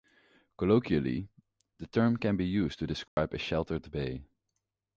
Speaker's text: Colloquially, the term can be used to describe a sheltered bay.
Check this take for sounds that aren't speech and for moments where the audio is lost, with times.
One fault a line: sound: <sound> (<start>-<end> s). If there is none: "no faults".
sound: dropout (3.1-3.2 s)